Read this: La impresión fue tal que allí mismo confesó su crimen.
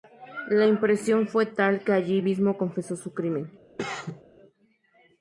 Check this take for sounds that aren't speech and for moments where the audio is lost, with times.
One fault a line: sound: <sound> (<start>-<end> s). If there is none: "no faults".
sound: cough (3.8-4.2 s)